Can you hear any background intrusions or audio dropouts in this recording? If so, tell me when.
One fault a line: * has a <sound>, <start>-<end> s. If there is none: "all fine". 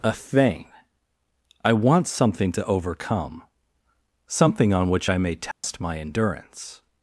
* has a dropout, 5.5-5.6 s